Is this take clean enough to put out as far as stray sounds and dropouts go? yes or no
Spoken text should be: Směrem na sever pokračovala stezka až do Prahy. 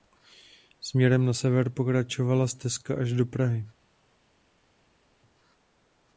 yes